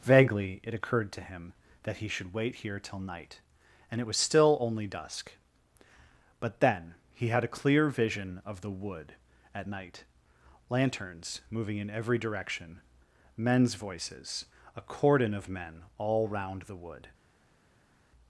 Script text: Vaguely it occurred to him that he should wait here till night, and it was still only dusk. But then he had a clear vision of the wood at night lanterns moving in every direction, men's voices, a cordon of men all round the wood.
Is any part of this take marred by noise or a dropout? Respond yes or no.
no